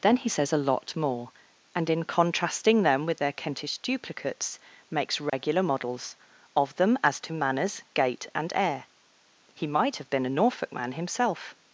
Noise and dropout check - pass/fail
fail